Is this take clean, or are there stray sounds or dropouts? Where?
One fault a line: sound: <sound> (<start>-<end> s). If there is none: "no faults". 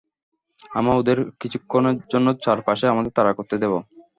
no faults